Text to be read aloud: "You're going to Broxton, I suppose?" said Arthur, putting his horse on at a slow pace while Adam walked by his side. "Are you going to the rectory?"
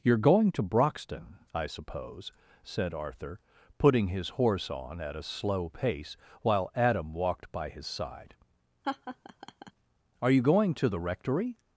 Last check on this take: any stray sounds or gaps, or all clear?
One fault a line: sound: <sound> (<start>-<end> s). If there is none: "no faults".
sound: laugh (8.8-9.7 s)